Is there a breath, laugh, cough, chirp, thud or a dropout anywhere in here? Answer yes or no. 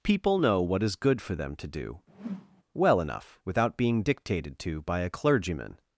yes